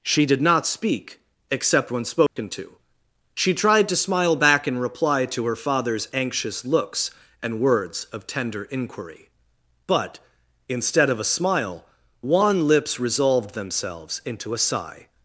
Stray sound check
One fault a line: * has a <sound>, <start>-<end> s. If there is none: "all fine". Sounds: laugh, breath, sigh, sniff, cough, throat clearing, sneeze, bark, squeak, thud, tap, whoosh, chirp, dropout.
* has a dropout, 2.3-2.4 s